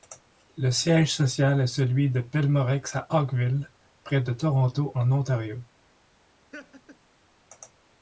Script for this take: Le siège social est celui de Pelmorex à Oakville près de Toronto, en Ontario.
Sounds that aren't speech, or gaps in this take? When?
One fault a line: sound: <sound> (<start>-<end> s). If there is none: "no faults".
sound: laugh (6.5-7.0 s)